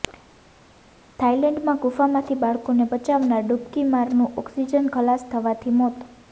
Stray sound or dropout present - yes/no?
no